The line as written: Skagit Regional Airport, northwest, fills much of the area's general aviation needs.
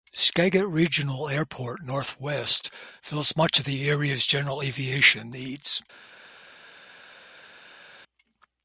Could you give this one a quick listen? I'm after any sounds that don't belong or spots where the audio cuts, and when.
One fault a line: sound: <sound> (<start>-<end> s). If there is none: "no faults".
no faults